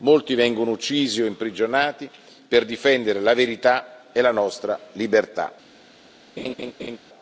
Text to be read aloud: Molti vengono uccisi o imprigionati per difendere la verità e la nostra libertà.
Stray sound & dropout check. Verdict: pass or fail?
fail